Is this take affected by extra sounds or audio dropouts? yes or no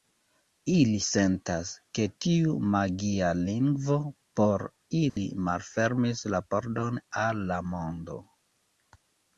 yes